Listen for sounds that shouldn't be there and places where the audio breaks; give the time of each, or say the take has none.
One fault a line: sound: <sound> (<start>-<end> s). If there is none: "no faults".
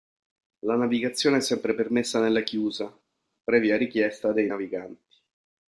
no faults